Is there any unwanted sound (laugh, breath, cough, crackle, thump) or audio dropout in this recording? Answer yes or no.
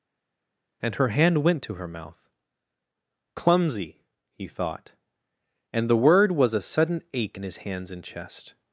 no